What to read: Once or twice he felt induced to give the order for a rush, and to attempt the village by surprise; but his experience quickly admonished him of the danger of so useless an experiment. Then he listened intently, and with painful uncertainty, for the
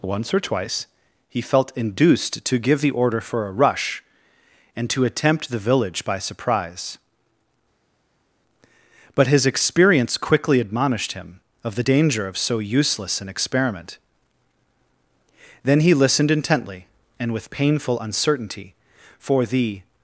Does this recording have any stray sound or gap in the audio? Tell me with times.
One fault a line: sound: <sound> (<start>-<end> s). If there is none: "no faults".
no faults